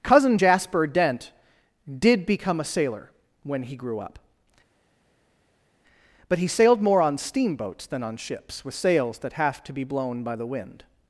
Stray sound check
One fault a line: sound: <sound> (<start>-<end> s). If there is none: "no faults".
no faults